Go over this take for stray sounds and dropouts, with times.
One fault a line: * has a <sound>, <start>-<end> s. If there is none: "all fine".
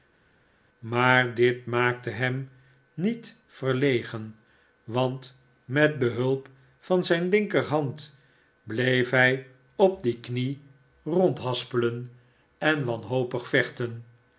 all fine